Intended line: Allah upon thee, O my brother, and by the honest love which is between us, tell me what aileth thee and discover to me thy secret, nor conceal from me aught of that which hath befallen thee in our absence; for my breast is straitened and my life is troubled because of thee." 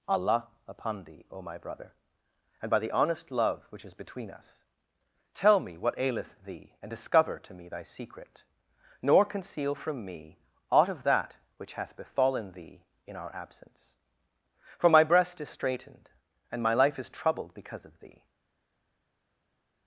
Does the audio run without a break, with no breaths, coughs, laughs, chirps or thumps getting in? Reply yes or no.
yes